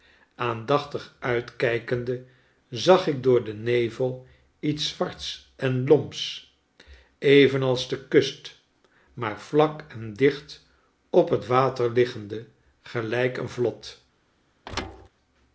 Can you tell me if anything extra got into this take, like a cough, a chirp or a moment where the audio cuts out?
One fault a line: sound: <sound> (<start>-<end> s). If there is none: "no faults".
sound: thud (14.7-15.1 s)